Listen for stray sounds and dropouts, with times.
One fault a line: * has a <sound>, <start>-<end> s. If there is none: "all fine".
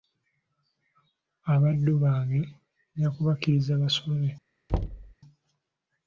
* has a thud, 4.7-5.1 s